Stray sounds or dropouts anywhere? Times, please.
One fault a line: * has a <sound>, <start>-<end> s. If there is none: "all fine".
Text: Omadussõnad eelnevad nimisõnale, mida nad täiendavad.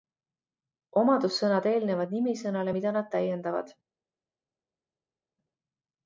all fine